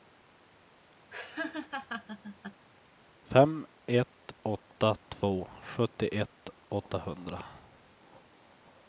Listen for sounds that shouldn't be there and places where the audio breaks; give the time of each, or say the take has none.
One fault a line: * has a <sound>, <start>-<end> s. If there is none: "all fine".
* has a laugh, 1.1-2.7 s